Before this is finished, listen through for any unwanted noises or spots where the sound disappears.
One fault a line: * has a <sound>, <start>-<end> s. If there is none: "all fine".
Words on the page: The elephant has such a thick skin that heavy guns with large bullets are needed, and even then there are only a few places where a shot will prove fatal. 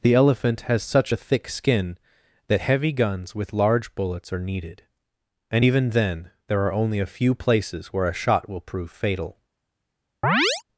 * has a chirp, 10.2-10.6 s